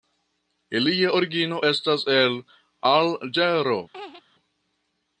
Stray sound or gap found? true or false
true